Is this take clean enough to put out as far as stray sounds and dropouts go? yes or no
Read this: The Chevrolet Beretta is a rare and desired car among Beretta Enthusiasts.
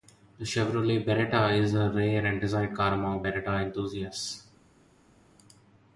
yes